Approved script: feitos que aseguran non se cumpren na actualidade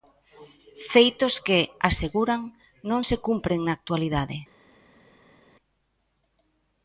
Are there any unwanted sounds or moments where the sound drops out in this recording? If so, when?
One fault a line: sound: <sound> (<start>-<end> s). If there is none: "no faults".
no faults